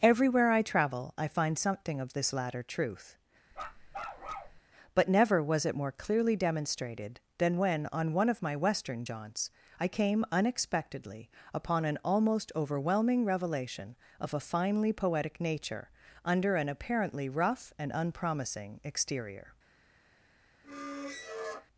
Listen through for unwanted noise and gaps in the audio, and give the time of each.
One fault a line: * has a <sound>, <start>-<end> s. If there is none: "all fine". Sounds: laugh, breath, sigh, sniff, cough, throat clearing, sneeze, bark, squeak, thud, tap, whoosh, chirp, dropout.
* has a bark, 3.5-4.6 s
* has a squeak, 20.6-21.7 s